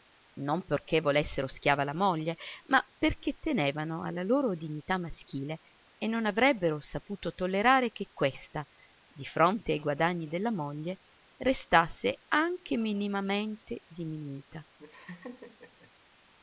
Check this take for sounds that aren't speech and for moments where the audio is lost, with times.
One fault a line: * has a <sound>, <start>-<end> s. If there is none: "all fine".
* has a laugh, 14.8-15.9 s